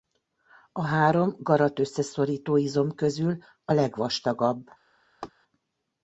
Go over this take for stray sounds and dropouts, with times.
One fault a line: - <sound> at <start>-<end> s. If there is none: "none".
- laugh at 5.2-5.3 s